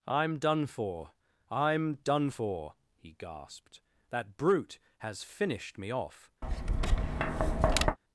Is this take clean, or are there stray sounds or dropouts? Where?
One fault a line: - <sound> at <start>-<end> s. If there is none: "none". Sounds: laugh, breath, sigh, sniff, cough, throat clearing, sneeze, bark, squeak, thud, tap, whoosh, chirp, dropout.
- tap at 6.4-8.0 s